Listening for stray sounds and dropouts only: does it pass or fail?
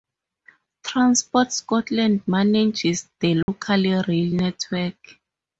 fail